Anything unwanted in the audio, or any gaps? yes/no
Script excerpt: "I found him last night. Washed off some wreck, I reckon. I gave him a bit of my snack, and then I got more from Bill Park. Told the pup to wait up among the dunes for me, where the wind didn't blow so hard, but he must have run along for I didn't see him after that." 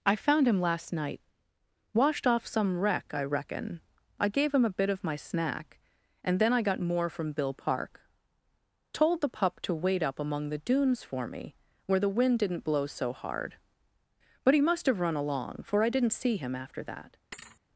yes